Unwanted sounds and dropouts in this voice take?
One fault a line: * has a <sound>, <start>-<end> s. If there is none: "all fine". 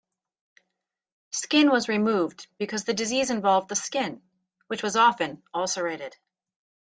all fine